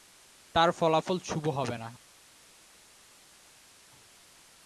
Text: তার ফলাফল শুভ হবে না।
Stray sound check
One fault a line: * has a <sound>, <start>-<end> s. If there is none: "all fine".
all fine